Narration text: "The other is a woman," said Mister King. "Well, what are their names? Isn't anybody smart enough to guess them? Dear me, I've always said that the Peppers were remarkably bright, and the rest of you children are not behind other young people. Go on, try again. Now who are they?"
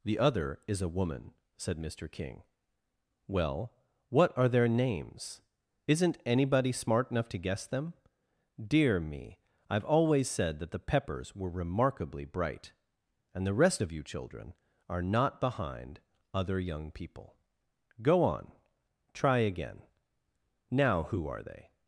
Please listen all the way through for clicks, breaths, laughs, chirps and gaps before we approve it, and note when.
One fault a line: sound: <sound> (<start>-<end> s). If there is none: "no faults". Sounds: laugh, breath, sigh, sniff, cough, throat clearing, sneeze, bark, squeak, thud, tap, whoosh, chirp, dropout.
no faults